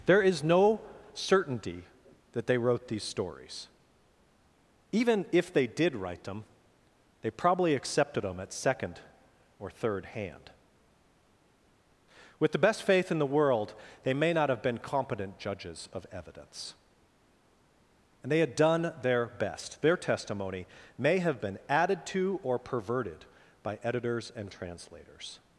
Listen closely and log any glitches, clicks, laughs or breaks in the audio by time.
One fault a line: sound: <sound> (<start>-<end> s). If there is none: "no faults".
no faults